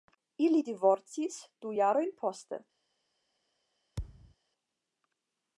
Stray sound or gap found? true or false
true